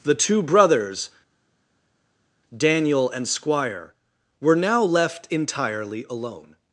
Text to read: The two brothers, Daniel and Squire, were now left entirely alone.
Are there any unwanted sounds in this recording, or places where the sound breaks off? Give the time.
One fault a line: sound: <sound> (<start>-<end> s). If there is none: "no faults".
no faults